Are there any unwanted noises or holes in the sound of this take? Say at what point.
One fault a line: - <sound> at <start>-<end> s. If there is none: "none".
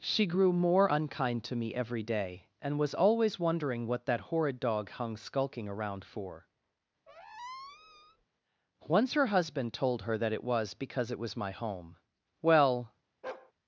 - squeak at 7.1-8.2 s
- bark at 13.2-13.5 s